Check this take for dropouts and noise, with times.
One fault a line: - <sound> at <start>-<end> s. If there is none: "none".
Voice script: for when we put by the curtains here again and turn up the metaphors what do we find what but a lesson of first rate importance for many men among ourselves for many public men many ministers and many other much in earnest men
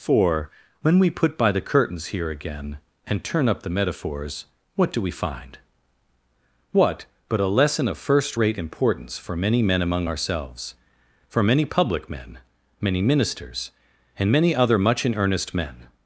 none